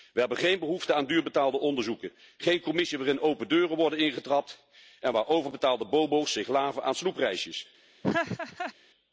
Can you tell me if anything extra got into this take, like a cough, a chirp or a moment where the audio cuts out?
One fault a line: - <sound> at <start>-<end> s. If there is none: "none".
- laugh at 8.0-8.7 s